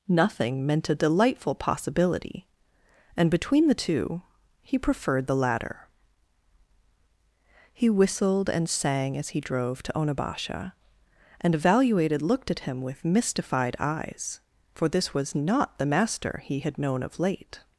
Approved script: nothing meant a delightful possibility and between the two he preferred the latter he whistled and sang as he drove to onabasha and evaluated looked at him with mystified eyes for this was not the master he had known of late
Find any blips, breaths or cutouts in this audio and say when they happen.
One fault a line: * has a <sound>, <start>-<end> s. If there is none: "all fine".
all fine